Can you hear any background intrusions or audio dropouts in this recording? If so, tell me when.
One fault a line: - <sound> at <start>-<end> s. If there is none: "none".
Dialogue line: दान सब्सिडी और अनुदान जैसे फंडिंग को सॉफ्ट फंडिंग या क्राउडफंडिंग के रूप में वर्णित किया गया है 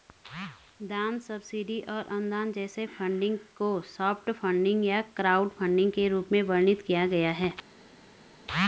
none